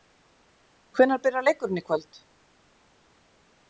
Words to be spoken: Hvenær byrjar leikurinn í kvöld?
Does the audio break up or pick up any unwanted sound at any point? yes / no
no